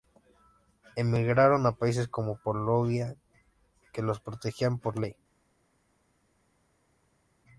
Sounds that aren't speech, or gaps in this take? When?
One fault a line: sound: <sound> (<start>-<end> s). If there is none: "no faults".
no faults